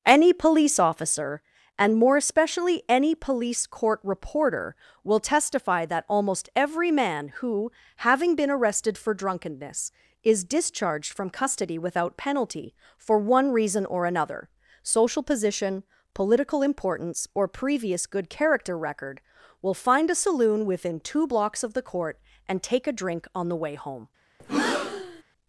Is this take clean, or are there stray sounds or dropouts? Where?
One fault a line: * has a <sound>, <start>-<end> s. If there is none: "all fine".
* has a breath, 24.4-25.2 s